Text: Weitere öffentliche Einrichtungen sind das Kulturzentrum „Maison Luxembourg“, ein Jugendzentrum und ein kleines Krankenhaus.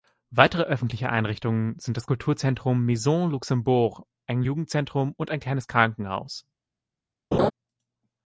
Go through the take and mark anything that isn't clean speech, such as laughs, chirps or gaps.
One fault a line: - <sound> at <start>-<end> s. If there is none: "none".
- laugh at 7.3-7.5 s